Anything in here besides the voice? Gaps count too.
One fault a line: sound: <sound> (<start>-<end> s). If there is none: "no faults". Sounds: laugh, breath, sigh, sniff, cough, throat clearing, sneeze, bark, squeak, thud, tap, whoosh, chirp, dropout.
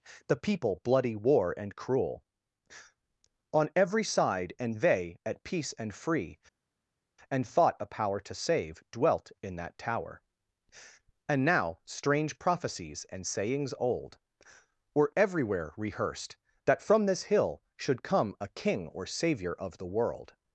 no faults